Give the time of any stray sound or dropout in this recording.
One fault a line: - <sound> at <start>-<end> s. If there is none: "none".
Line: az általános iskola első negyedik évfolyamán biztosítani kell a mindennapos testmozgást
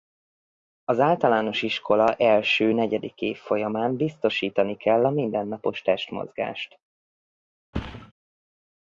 - thud at 7.7-8.1 s